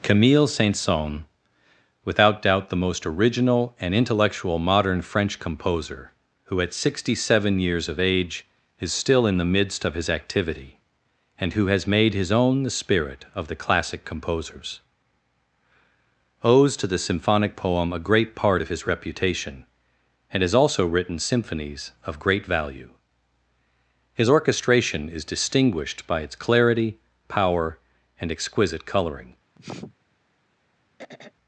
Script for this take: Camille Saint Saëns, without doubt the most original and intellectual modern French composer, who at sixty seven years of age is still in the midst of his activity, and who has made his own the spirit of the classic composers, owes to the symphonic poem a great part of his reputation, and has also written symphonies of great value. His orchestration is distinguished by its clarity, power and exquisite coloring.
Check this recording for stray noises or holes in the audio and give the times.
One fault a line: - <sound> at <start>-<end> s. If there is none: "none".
- sniff at 29.5-30.0 s
- throat clearing at 31.0-31.3 s